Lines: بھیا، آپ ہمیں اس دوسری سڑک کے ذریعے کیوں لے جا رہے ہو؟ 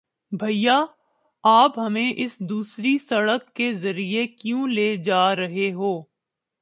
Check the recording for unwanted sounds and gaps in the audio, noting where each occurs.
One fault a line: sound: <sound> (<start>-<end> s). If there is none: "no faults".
no faults